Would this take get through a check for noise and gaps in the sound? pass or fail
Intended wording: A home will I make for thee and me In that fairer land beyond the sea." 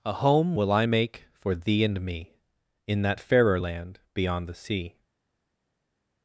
pass